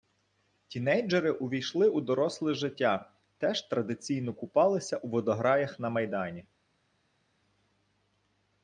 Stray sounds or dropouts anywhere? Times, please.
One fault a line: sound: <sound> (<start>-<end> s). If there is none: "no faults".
no faults